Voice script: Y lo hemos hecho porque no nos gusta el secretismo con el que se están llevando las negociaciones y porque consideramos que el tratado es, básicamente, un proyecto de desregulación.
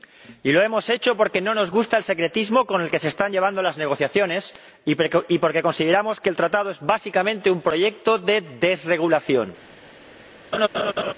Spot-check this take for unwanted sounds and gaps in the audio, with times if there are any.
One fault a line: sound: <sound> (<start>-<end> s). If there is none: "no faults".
sound: laugh (10.5-11.1 s)